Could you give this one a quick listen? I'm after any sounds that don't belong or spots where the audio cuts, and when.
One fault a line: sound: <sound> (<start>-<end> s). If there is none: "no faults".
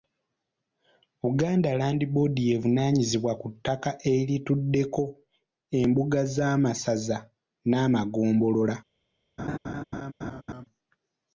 sound: laugh (9.4-10.7 s)